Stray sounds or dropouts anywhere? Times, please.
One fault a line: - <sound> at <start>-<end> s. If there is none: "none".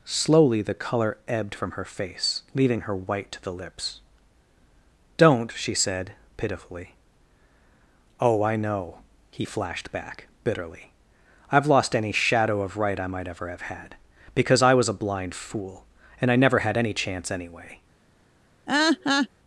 - laugh at 18.7-19.3 s